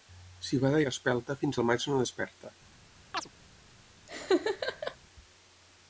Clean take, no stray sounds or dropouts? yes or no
no